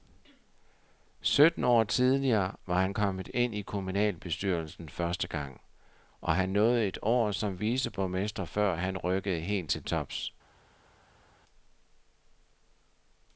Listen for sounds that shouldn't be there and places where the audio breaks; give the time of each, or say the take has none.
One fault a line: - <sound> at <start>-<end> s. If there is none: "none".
none